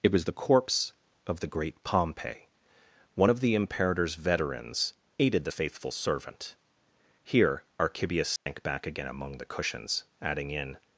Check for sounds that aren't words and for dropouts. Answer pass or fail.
fail